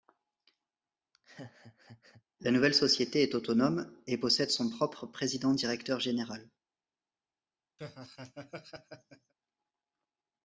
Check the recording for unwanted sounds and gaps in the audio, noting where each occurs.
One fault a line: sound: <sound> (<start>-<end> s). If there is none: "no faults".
sound: laugh (1.1-2.2 s)
sound: laugh (7.8-9.3 s)